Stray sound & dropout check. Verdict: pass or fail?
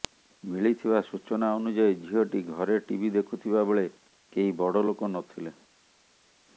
pass